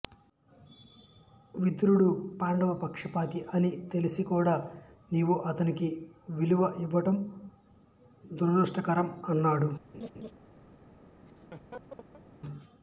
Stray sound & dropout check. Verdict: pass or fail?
fail